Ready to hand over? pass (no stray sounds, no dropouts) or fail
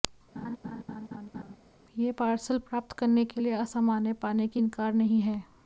fail